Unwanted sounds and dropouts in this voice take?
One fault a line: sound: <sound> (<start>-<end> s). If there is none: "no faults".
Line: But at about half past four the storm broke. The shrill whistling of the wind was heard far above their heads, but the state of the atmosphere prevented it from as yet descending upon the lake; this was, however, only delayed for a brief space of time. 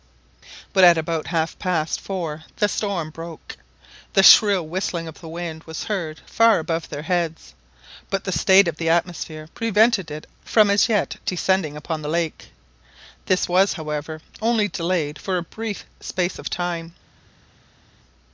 no faults